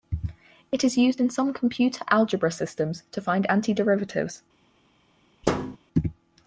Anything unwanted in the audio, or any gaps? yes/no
yes